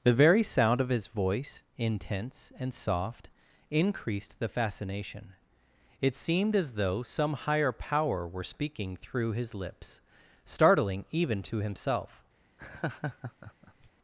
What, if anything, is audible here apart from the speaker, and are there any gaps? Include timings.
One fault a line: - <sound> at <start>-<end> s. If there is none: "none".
- laugh at 12.6-13.9 s